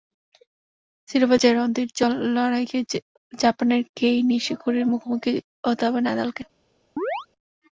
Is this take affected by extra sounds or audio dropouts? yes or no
yes